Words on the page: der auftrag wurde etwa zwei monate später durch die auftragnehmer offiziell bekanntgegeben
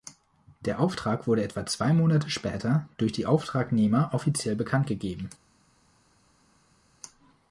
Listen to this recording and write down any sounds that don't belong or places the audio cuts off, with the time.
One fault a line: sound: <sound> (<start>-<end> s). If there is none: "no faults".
no faults